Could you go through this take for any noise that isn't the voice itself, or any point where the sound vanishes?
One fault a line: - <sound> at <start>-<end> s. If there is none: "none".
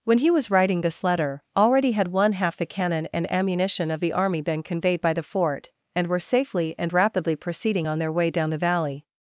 none